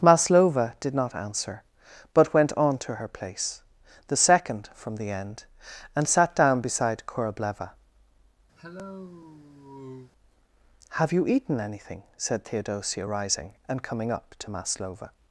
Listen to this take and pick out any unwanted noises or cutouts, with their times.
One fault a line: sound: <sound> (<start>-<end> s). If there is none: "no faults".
sound: cough (8.6-10.1 s)